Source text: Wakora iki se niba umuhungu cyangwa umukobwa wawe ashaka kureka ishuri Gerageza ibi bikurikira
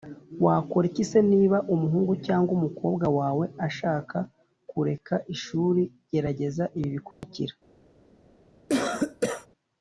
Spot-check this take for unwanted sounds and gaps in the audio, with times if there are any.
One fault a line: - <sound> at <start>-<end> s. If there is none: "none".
- dropout at 7.1-7.2 s
- cough at 8.7-9.5 s